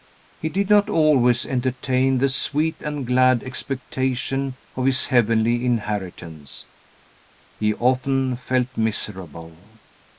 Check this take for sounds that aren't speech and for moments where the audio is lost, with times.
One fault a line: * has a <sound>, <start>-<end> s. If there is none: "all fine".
all fine